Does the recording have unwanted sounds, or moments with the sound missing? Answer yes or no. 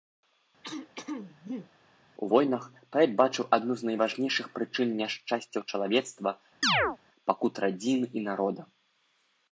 yes